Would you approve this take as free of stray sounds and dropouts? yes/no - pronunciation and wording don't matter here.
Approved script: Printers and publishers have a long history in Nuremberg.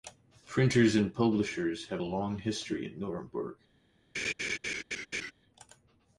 no